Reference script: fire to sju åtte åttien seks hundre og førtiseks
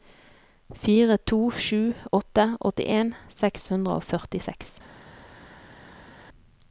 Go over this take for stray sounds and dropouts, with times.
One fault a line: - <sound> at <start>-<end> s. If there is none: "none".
none